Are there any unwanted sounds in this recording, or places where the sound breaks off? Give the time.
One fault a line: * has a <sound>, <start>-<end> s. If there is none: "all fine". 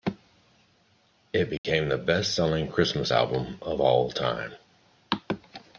* has a dropout, 1.6-1.6 s